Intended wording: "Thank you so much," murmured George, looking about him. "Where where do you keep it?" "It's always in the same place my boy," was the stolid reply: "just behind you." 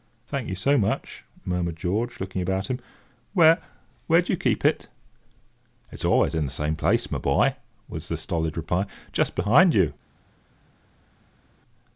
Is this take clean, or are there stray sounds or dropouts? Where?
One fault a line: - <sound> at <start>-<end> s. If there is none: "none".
none